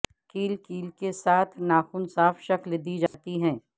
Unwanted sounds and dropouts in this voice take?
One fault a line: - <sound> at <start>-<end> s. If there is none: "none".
- dropout at 3.1-3.1 s